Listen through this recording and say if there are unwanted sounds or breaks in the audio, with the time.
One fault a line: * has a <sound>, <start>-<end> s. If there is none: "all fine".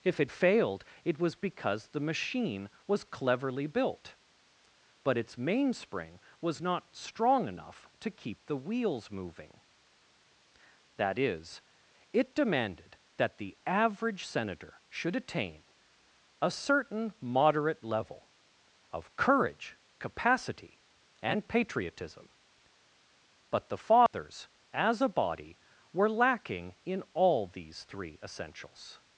* has a dropout, 24.1-24.1 s